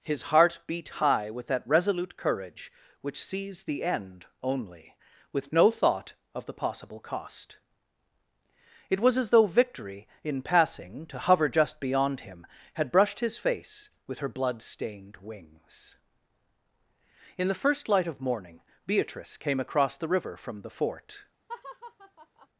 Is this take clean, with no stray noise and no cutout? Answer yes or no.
no